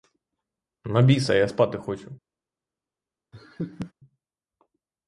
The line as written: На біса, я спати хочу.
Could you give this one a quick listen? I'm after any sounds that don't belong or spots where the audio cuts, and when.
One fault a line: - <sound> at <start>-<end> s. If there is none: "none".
- laugh at 3.3-3.9 s